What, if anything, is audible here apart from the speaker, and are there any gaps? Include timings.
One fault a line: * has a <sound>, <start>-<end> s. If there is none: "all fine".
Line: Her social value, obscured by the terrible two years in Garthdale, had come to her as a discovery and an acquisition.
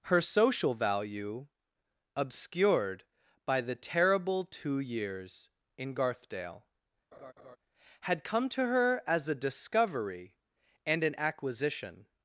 * has a laugh, 7.1-7.6 s